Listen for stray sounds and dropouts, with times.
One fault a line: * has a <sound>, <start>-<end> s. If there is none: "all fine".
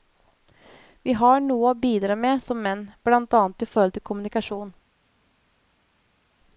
all fine